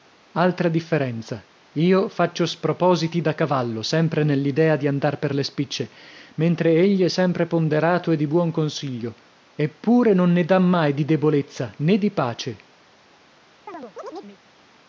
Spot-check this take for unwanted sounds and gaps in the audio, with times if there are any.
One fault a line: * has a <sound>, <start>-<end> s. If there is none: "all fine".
* has a chirp, 13.7-14.4 s